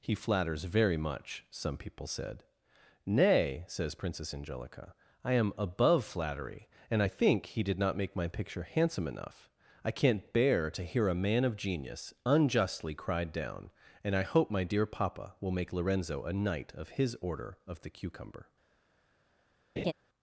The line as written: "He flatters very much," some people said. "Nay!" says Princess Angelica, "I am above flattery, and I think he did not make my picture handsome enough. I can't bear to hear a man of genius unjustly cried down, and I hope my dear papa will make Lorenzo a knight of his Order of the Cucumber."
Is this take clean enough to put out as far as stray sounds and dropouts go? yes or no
no